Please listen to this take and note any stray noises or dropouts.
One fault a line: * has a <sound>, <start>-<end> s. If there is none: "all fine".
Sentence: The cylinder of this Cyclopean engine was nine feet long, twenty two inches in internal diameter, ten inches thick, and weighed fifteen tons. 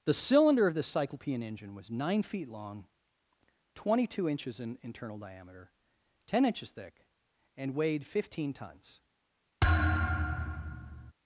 * has a thud, 9.6-11.1 s